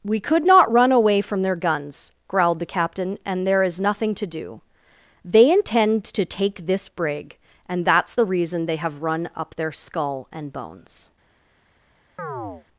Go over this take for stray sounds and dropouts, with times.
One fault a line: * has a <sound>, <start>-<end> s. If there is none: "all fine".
* has a chirp, 12.2-12.7 s